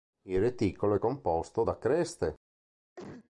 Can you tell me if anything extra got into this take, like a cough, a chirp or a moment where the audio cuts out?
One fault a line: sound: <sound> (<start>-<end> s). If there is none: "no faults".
sound: cough (3.0-3.3 s)